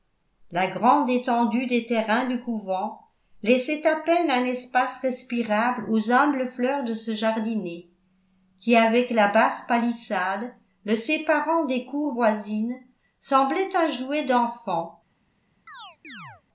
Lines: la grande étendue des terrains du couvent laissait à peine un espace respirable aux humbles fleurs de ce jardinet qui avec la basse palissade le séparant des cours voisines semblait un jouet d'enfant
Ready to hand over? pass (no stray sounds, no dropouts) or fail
fail